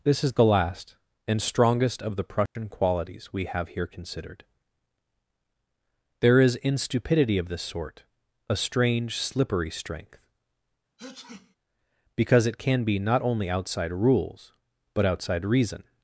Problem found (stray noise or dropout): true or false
true